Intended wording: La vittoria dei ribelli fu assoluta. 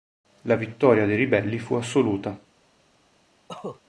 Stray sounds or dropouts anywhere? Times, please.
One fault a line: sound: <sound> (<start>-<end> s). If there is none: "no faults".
sound: cough (3.5-3.8 s)